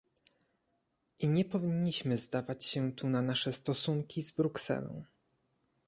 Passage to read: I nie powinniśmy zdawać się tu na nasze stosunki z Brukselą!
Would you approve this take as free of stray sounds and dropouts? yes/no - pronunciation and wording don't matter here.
yes